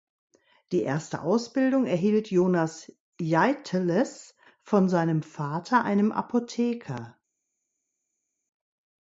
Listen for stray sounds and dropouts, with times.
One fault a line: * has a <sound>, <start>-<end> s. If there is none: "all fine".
all fine